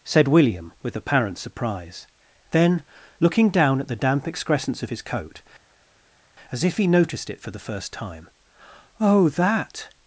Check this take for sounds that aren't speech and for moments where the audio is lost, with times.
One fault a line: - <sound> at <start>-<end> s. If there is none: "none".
none